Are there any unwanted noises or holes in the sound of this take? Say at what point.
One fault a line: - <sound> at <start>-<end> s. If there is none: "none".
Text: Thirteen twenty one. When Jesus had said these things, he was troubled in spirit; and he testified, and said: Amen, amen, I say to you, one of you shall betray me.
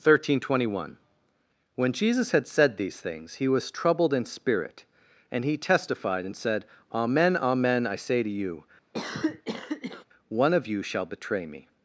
- cough at 8.9-10.0 s